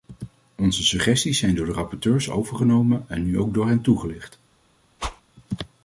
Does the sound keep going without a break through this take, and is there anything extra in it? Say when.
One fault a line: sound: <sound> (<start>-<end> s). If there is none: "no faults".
sound: whoosh (5.0-5.2 s)